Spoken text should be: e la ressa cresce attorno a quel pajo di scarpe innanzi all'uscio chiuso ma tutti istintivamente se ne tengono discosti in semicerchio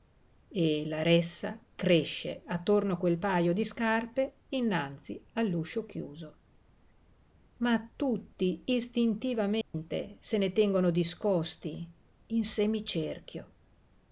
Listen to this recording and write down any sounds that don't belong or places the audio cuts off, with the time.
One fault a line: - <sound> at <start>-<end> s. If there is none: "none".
- dropout at 9.6-9.7 s